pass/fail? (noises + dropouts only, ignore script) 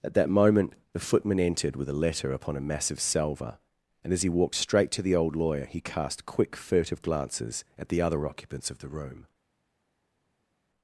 pass